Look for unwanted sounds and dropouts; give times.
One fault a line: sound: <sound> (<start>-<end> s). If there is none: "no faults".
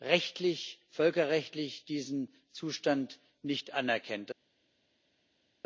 no faults